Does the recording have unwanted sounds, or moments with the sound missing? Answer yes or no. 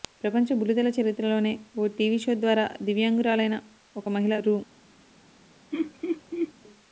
yes